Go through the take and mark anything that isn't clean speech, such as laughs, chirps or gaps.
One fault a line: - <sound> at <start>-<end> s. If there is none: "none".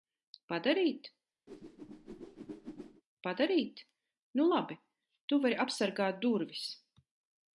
- whoosh at 1.5-3.0 s